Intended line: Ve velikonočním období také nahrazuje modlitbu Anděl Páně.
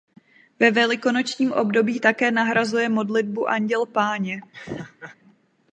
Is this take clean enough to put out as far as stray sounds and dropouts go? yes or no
no